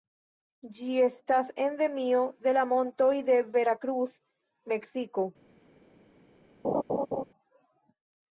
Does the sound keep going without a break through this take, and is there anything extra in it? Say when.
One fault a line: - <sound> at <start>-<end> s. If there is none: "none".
- laugh at 6.6-7.2 s